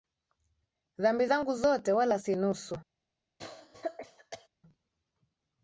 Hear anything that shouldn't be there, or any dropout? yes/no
yes